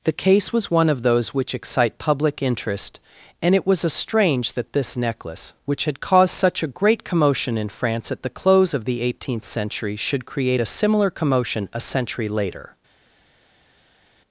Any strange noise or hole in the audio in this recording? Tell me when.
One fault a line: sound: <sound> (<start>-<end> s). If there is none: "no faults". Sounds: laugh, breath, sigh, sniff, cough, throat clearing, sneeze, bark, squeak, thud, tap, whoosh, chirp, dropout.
no faults